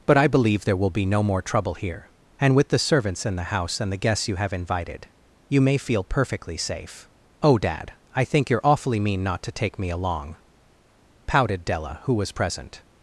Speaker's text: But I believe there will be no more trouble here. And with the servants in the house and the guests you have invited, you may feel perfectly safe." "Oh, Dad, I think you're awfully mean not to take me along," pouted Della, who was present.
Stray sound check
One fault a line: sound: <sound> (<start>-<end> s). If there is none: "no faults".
no faults